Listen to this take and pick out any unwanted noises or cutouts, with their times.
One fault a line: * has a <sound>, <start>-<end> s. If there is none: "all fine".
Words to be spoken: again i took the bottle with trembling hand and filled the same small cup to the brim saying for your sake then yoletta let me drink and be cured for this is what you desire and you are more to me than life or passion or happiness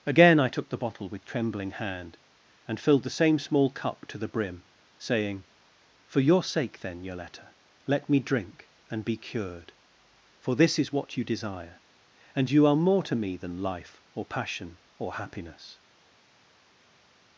all fine